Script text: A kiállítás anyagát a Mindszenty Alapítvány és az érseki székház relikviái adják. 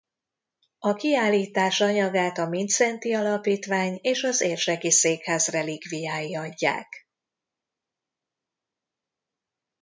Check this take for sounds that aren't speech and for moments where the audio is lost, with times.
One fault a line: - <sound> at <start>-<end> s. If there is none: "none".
none